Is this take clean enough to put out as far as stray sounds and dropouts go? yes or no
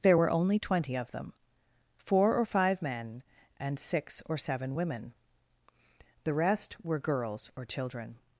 yes